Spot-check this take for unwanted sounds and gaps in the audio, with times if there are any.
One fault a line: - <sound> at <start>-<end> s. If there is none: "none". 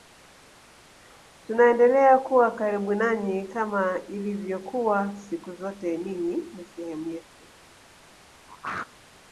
- throat clearing at 8.5-8.9 s